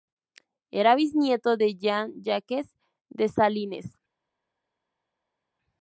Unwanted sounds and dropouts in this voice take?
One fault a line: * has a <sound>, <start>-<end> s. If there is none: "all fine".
all fine